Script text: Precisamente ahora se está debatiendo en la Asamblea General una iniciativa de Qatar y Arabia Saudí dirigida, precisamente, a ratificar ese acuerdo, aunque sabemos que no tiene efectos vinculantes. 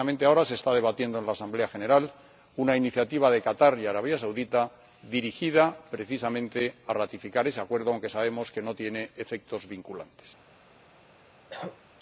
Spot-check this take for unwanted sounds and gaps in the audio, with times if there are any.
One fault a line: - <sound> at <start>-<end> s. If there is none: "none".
- cough at 11.5-11.8 s